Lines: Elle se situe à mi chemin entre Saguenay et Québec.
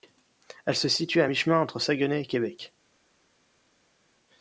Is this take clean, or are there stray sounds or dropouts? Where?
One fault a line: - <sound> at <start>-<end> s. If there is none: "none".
none